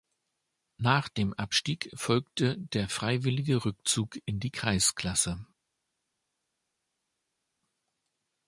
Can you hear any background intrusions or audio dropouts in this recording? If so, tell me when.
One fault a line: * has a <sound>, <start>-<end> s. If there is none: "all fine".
all fine